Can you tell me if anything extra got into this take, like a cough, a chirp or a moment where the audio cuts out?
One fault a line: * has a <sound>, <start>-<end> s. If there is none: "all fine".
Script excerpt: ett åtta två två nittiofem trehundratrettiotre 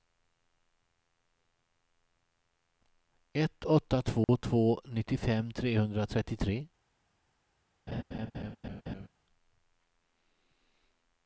* has a dropout, 4.2-4.3 s
* has a laugh, 7.9-9.1 s